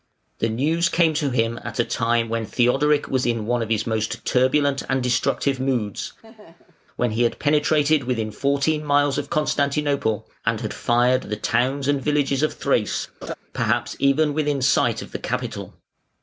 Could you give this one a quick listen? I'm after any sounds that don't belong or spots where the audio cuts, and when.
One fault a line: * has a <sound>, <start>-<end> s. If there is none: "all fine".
* has a laugh, 6.2-6.9 s
* has a laugh, 13.2-13.4 s